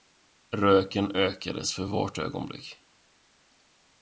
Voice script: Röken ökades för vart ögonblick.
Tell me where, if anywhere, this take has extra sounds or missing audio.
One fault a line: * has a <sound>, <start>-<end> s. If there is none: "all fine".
all fine